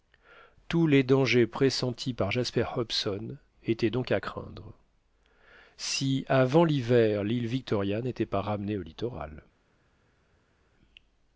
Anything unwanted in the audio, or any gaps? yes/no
no